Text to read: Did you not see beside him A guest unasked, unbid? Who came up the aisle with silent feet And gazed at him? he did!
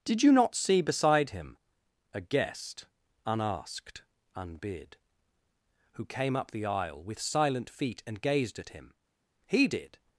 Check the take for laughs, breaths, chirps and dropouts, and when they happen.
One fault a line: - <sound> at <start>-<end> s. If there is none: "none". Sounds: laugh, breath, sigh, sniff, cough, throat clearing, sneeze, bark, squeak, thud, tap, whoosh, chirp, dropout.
none